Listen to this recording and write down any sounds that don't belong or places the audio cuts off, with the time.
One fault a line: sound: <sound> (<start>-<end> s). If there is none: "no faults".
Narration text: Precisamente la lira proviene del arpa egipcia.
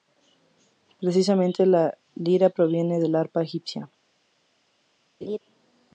sound: laugh (5.2-5.4 s)